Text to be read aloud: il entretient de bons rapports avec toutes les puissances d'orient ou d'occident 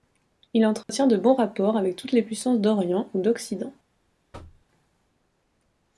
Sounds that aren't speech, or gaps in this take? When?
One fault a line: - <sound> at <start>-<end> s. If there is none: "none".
- dropout at 0.8-0.9 s
- thud at 4.3-4.7 s